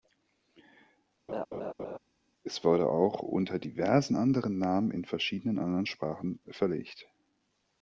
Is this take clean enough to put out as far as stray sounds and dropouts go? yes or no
no